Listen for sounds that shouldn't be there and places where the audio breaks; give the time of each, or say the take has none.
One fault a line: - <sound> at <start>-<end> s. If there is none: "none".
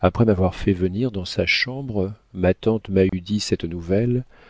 - dropout at 3.1-3.1 s